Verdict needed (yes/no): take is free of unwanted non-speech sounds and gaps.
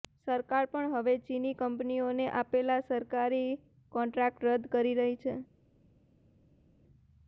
yes